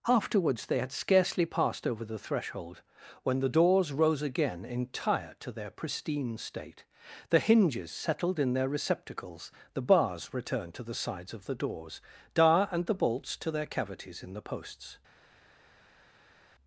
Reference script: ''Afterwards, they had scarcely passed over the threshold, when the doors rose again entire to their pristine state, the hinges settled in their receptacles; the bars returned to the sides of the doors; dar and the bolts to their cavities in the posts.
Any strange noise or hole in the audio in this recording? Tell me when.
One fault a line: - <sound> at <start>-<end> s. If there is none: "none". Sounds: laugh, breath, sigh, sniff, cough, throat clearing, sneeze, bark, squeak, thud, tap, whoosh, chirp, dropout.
none